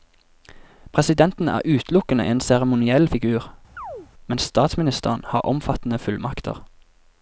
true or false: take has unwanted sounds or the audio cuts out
true